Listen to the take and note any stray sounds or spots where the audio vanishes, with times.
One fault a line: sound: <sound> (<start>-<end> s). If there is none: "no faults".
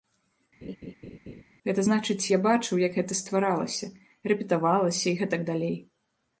sound: laugh (0.6-1.4 s)